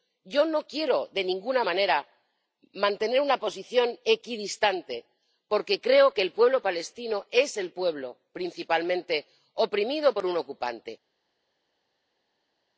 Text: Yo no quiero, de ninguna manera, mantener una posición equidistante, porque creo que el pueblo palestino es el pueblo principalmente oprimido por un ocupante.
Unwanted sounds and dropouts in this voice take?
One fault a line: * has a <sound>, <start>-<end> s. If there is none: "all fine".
all fine